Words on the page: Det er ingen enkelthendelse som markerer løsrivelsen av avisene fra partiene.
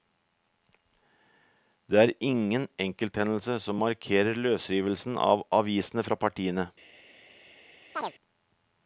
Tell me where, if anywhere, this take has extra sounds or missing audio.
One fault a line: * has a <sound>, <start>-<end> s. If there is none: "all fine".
* has a chirp, 7.9-8.1 s